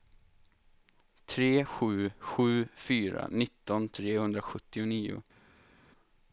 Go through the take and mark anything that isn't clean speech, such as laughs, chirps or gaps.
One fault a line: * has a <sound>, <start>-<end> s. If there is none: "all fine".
all fine